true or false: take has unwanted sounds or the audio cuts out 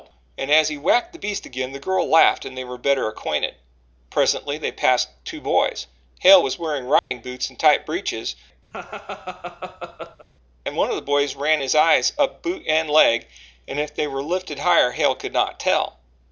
true